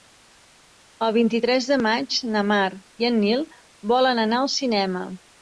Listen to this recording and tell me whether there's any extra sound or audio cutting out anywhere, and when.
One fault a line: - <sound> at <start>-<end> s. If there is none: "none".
none